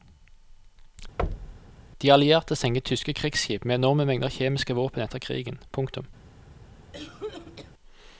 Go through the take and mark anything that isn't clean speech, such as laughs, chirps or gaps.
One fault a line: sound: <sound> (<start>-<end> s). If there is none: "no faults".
sound: thud (1.2-1.8 s)
sound: cough (6.9-7.7 s)